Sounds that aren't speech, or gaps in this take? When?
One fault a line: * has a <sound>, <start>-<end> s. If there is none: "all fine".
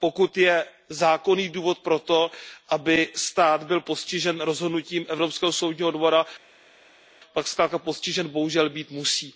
all fine